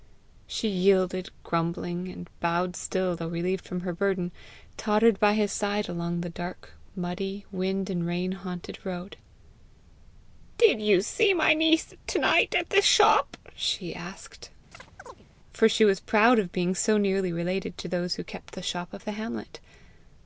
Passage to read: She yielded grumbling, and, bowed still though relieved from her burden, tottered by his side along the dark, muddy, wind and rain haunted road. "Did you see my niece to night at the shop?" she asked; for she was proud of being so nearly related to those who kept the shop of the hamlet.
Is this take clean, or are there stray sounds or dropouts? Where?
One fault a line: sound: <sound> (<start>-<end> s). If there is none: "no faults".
sound: chirp (14.7-15.3 s)